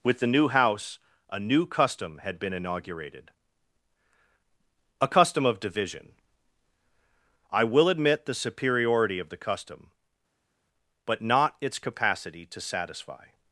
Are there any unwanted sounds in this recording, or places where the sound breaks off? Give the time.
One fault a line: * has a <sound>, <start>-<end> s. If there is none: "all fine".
all fine